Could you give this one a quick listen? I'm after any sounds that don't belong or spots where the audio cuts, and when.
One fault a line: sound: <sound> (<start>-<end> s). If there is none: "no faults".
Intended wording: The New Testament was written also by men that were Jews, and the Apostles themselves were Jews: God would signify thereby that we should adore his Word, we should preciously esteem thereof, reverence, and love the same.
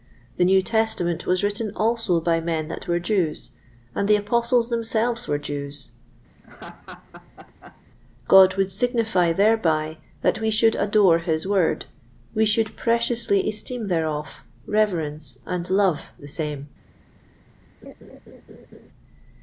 sound: laugh (6.4-7.8 s)
sound: laugh (17.8-18.9 s)